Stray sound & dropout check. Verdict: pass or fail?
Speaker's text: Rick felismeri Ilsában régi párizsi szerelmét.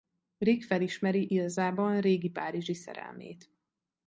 pass